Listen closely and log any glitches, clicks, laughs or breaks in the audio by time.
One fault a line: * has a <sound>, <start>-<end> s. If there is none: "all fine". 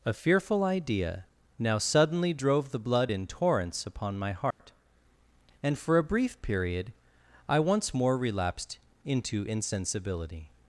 * has a dropout, 4.5-4.6 s